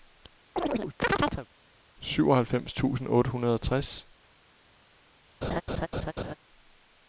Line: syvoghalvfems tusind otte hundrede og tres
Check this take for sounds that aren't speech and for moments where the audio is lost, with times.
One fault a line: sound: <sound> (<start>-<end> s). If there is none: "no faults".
sound: chirp (0.6-1.5 s)
sound: laugh (5.4-6.4 s)